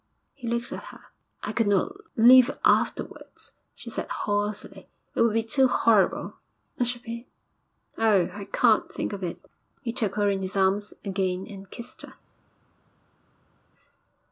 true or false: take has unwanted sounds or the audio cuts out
false